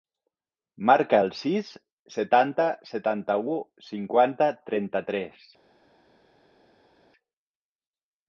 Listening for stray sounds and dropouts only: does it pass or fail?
pass